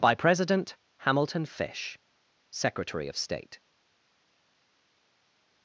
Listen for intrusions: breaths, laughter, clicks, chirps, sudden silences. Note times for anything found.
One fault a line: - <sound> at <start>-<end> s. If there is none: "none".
none